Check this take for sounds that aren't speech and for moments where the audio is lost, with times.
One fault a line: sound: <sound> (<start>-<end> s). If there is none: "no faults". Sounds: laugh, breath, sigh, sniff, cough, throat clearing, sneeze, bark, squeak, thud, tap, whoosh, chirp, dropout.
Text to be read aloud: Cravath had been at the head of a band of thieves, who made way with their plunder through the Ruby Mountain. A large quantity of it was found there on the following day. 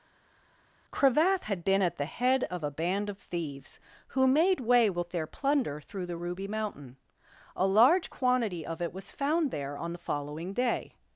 no faults